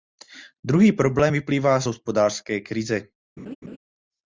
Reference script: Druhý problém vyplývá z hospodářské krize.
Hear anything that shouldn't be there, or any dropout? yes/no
yes